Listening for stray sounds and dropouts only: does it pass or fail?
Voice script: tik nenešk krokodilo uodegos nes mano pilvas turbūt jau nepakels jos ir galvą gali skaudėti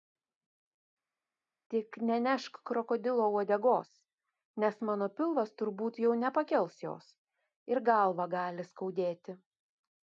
pass